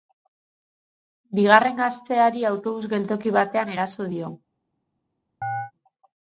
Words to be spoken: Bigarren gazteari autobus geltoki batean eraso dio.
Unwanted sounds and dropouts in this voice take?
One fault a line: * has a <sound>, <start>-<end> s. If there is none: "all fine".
* has a chirp, 5.4-5.7 s